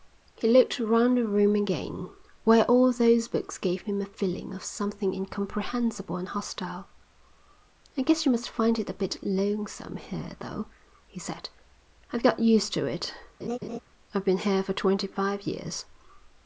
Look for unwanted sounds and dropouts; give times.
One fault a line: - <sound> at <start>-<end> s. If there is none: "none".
- laugh at 13.4-13.8 s